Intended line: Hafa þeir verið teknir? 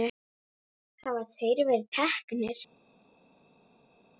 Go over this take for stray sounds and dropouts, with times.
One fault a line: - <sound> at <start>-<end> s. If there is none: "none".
none